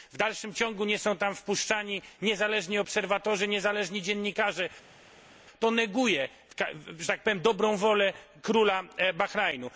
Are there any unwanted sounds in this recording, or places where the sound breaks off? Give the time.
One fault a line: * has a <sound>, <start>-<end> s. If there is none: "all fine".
all fine